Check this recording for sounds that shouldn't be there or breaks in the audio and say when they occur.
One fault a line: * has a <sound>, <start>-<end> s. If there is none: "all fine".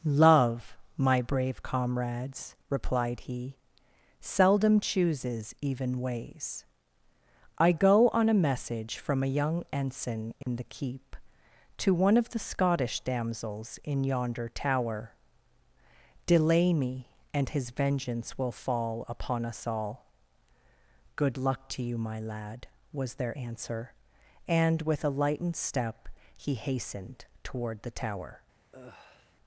* has a dropout, 10.4-10.5 s
* has a sigh, 28.7-29.4 s